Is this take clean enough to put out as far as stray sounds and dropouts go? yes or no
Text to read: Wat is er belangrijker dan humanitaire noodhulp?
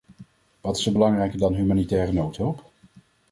yes